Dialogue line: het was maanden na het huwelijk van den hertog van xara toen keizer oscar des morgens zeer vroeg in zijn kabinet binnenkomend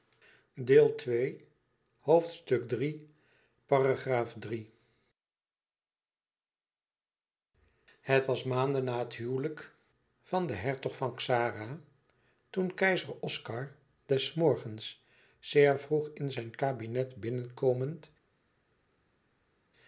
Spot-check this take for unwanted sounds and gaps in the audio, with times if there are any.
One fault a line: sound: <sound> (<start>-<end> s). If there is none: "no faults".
no faults